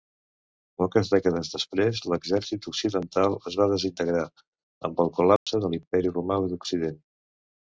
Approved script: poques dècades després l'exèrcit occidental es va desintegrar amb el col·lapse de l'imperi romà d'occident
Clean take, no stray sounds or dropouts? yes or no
no